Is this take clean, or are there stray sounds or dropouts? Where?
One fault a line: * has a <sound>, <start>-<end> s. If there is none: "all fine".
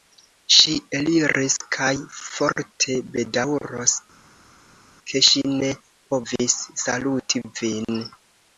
all fine